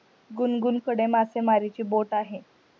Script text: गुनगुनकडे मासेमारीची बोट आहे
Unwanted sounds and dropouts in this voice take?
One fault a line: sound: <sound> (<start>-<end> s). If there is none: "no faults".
no faults